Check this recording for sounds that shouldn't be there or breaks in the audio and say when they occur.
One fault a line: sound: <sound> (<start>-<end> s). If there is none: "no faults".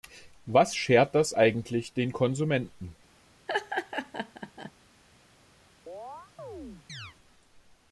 sound: laugh (3.5-4.7 s)
sound: chirp (5.9-7.2 s)